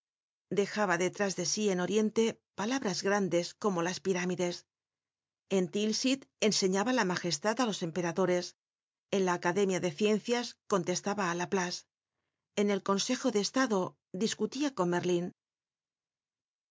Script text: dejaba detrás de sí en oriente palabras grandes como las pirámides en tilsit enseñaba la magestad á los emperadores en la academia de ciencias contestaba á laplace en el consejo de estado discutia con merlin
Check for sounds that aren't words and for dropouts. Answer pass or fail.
pass